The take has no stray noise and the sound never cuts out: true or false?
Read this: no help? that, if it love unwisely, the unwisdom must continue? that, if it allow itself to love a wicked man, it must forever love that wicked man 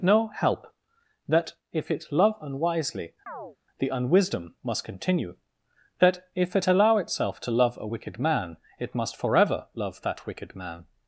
false